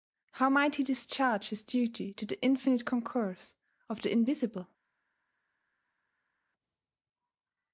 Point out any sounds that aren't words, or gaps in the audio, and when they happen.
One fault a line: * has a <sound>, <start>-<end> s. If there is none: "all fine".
all fine